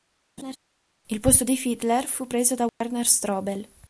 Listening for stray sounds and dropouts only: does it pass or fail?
fail